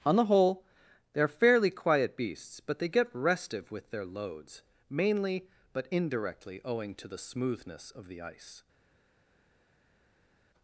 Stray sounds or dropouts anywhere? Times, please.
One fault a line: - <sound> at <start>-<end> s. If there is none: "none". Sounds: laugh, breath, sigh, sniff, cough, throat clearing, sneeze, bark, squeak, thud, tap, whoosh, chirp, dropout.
none